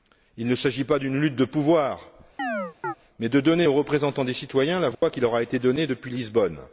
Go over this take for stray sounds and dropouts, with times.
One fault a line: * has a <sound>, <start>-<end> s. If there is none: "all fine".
* has a chirp, 2.4-2.9 s
* has a dropout, 4.9-5.0 s